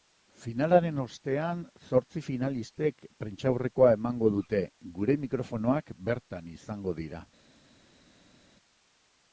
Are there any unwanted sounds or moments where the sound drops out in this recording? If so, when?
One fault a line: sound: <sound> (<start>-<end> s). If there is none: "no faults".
no faults